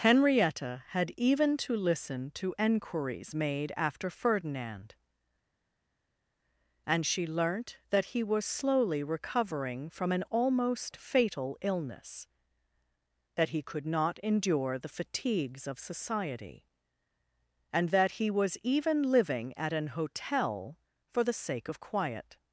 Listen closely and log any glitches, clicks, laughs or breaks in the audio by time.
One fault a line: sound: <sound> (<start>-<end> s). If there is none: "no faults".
no faults